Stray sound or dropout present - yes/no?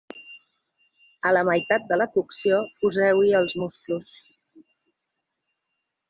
no